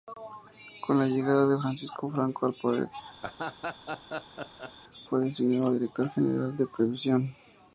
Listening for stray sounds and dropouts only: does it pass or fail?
fail